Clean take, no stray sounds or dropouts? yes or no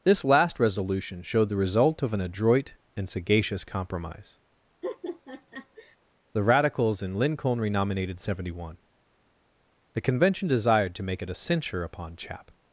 no